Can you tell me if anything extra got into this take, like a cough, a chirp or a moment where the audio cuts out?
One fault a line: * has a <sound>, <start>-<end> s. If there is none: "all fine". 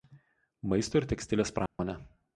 * has a dropout, 1.7-1.8 s